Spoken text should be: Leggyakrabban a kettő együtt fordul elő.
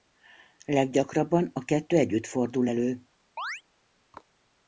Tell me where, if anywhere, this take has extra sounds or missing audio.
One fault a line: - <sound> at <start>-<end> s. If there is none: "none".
- chirp at 3.4-3.6 s